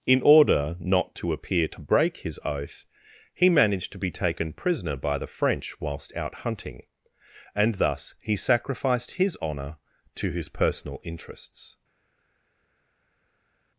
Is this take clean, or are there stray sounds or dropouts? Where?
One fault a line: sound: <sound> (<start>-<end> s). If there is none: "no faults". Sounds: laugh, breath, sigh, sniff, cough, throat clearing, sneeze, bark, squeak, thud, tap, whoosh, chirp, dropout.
no faults